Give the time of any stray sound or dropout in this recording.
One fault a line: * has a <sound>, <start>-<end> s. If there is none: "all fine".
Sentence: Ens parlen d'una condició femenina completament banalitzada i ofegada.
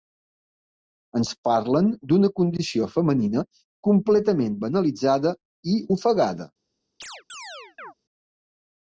* has a chirp, 7.0-7.9 s